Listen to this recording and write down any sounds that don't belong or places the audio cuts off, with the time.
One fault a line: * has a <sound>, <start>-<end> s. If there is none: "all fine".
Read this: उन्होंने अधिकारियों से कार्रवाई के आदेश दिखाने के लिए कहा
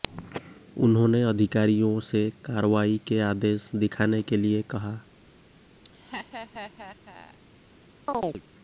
* has a laugh, 5.8-7.4 s
* has a chirp, 8.1-8.4 s